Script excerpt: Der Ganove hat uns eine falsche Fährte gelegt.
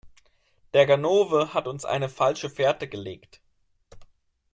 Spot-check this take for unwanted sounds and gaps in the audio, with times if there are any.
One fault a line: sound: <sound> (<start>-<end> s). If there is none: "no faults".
no faults